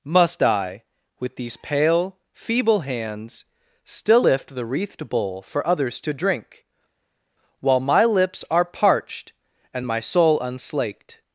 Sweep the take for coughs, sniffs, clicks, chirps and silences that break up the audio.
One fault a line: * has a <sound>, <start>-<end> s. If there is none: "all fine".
all fine